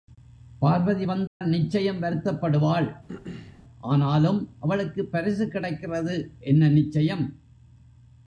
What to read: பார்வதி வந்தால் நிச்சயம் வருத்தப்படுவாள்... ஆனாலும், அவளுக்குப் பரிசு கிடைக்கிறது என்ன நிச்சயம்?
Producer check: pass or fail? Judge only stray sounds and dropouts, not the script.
fail